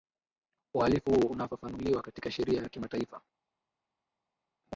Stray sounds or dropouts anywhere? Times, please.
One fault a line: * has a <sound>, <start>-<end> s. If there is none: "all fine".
all fine